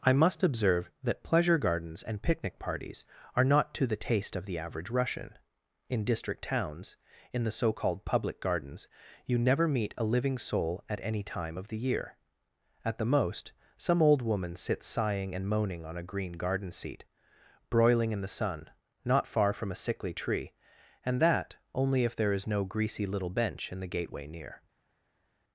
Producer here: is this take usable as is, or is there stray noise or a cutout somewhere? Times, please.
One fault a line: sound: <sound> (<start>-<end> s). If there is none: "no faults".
no faults